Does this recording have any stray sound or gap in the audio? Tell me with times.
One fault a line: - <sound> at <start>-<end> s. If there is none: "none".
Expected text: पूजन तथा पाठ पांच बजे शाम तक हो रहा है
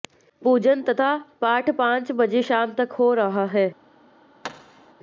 - thud at 4.4-4.9 s